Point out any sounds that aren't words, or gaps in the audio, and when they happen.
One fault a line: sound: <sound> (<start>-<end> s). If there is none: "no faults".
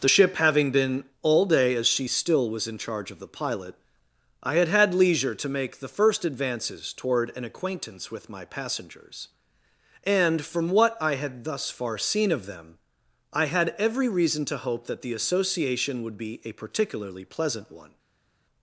no faults